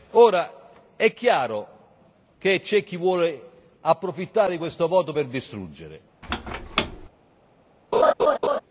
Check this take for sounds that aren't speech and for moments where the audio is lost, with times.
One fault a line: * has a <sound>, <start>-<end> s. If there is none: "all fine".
* has a squeak, 6.2-7.1 s
* has a laugh, 7.9-8.6 s